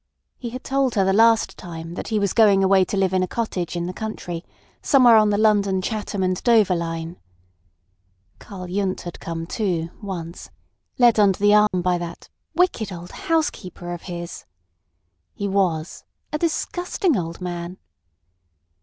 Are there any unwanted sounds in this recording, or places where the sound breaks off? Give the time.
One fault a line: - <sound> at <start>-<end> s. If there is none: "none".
- dropout at 11.7-11.7 s